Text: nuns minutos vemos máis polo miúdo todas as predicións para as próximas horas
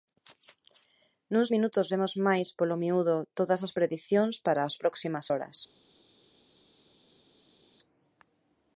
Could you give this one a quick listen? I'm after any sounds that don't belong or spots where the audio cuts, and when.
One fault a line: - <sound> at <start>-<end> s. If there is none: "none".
none